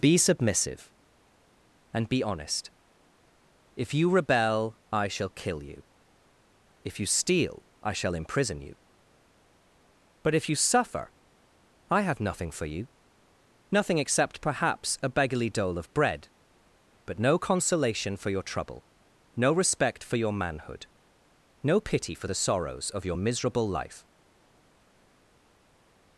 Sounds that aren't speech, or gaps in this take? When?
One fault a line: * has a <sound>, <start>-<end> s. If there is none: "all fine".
all fine